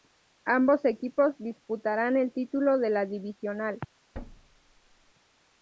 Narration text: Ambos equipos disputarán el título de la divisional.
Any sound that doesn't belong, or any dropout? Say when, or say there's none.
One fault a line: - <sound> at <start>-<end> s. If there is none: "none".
- thud at 4.1-5.1 s